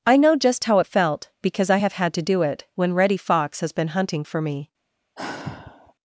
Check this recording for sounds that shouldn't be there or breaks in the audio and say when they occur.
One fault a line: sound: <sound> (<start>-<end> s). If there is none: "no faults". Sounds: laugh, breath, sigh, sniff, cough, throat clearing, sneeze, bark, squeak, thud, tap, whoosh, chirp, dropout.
sound: sigh (5.2-5.9 s)